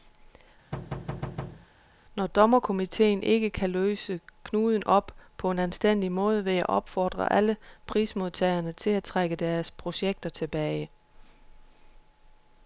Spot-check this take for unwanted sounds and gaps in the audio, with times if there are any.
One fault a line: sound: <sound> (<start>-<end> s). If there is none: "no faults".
sound: thud (0.7-1.7 s)